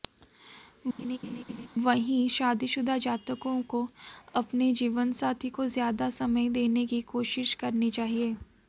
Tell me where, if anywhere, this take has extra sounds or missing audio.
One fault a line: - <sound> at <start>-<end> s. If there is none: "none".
- laugh at 1.0-1.7 s